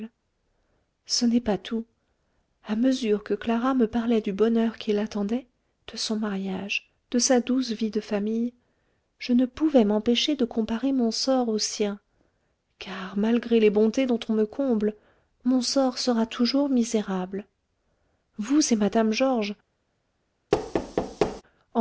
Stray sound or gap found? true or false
true